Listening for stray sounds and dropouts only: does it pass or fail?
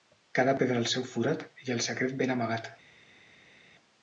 pass